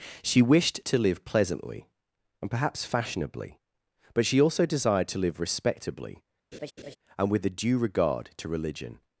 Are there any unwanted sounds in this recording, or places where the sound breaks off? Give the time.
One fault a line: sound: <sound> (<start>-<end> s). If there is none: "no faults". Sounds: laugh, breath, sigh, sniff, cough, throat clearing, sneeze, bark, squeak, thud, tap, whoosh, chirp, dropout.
sound: laugh (6.5-7.0 s)